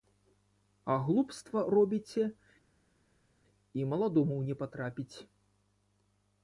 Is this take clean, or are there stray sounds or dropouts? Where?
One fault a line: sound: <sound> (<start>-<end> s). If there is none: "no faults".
no faults